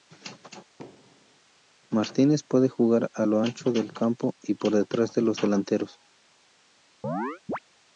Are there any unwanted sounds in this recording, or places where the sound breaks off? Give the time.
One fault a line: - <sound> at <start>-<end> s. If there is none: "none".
- thud at 0.8-1.4 s
- chirp at 7.0-7.6 s